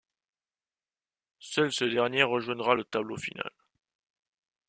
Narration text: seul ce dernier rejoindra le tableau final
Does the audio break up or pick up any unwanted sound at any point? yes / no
no